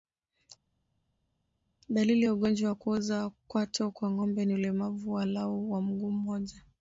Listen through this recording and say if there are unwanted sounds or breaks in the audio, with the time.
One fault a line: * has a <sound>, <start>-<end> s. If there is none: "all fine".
all fine